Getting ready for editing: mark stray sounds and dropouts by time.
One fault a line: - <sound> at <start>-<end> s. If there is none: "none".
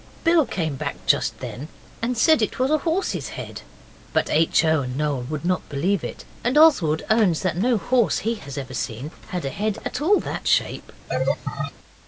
- laugh at 11.1-11.7 s